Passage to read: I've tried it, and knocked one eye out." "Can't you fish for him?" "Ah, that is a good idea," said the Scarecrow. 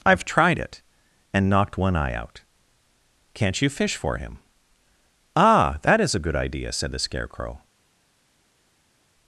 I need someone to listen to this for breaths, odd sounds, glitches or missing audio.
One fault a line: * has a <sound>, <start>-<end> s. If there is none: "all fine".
all fine